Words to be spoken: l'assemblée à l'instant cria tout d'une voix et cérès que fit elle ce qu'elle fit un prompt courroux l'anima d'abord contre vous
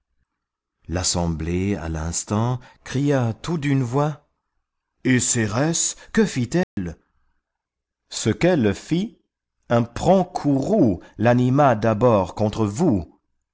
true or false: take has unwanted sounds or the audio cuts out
true